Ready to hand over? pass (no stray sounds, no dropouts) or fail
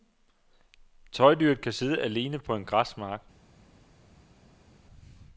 pass